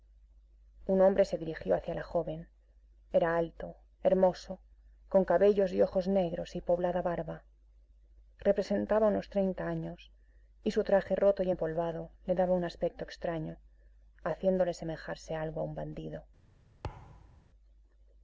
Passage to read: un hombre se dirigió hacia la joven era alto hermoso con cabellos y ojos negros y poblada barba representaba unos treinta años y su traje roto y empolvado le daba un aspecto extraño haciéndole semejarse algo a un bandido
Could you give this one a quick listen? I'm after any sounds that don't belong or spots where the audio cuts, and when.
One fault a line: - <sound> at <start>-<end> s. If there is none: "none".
- thud at 16.8-17.5 s